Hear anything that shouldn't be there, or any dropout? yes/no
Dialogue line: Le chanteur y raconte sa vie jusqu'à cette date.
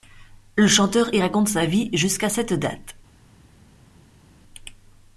no